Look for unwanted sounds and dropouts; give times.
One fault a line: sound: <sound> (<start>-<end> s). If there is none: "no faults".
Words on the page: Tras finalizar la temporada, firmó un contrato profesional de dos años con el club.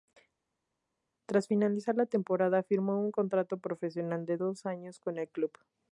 no faults